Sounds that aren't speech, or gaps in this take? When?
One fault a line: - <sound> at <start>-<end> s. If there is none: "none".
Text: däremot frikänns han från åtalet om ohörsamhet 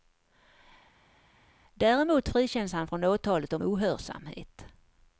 none